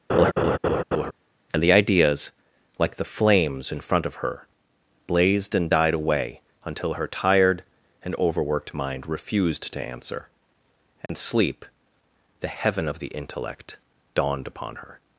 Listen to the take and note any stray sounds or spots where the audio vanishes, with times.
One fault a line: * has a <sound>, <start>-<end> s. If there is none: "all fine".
* has a laugh, 0.1-1.1 s
* has a dropout, 11.1-11.1 s